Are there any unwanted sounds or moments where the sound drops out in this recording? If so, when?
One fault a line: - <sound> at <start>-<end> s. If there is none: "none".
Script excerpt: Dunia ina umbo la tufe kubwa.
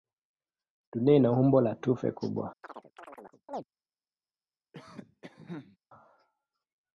- chirp at 2.6-3.6 s
- cough at 4.7-5.8 s